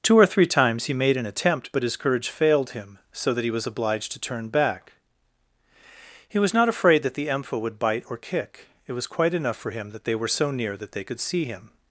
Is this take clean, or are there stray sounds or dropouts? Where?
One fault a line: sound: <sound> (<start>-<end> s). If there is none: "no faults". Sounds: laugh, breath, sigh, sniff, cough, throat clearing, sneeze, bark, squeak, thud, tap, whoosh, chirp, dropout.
no faults